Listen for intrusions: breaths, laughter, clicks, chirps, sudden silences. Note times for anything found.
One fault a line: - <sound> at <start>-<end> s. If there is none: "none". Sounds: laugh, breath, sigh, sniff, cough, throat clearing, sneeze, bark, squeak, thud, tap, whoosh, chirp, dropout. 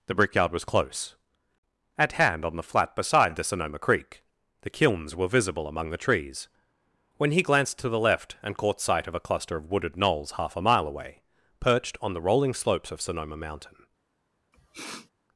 - sniff at 14.5-15.1 s